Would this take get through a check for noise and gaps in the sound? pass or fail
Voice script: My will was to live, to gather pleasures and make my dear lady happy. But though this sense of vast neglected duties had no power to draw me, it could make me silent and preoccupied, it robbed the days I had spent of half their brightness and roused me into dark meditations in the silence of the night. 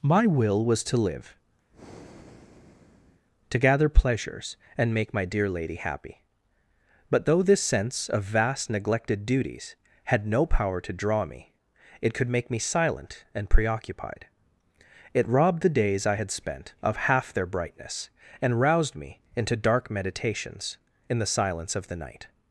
fail